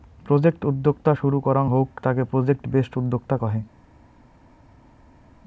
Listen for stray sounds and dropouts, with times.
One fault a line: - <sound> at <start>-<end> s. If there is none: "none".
none